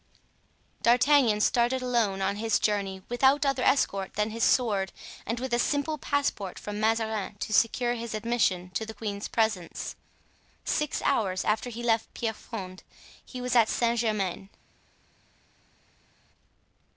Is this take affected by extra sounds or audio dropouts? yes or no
no